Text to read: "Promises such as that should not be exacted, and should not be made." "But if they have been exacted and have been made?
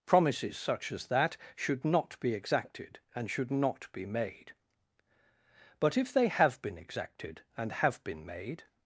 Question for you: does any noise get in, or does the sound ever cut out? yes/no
no